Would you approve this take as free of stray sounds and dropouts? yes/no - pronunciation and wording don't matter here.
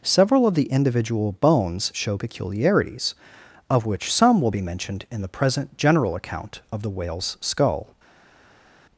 yes